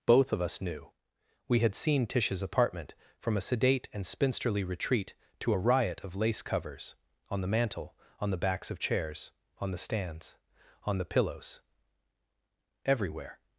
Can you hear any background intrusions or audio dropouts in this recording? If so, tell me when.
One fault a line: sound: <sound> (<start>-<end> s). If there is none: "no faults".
no faults